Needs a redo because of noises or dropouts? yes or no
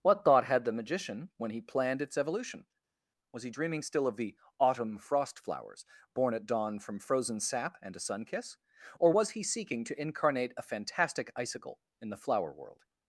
no